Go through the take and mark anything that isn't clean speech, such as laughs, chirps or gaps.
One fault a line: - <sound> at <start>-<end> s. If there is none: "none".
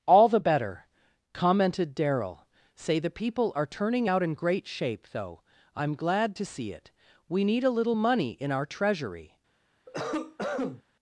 - cough at 9.9-10.8 s